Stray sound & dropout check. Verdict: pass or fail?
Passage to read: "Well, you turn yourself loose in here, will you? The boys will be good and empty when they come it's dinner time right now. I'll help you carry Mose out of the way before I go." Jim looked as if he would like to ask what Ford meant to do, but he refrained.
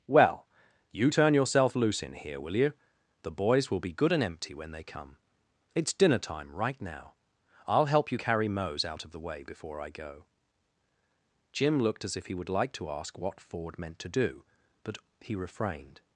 pass